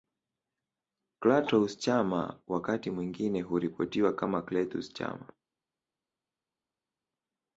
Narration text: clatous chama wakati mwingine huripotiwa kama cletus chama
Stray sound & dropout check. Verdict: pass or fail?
pass